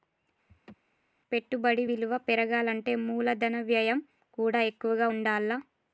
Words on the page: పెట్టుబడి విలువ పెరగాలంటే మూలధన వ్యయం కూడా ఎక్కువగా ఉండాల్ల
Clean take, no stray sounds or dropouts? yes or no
no